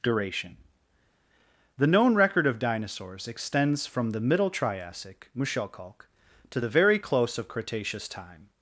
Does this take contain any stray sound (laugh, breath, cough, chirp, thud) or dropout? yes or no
no